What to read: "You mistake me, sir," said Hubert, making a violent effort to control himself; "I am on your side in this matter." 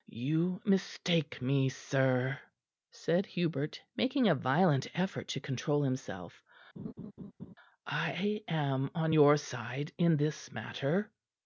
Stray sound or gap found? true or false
true